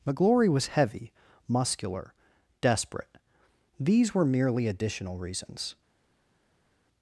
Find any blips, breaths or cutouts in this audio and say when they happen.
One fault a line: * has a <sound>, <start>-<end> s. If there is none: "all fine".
all fine